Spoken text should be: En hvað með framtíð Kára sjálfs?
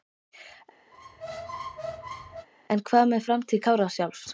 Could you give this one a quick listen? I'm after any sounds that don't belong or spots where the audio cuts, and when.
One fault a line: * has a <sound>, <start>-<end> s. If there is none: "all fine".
* has a squeak, 0.9-2.5 s